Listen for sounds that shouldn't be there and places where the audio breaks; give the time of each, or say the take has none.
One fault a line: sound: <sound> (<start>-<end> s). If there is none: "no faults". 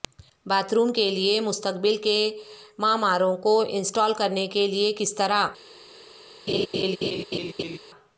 sound: laugh (6.5-7.8 s)